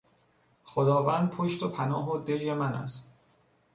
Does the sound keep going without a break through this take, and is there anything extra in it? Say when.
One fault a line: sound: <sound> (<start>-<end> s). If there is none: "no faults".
no faults